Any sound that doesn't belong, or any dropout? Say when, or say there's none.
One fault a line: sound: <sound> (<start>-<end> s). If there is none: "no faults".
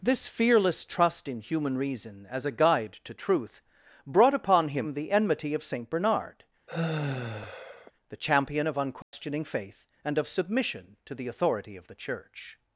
sound: sigh (6.7-7.9 s)
sound: dropout (9.0-9.1 s)